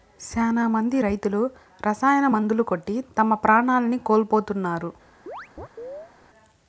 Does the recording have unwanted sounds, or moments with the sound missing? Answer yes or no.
yes